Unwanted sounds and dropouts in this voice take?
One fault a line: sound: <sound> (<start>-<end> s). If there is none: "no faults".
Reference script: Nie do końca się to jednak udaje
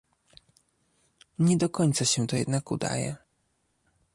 no faults